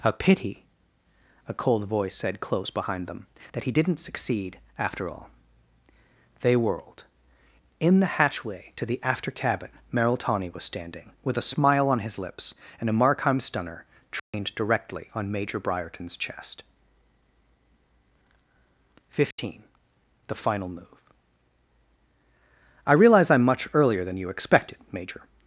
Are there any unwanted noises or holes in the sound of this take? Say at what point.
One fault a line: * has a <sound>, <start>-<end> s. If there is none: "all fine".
* has a dropout, 14.2-14.3 s
* has a dropout, 19.3-19.4 s